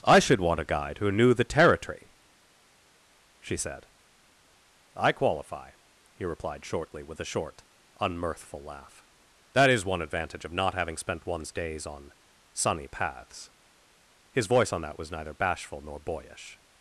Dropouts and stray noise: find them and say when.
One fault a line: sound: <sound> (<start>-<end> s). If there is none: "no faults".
no faults